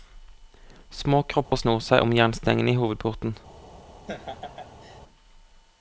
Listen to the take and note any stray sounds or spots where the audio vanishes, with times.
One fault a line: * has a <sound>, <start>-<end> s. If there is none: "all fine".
* has a dropout, 1.4-1.5 s
* has a laugh, 4.1-5.0 s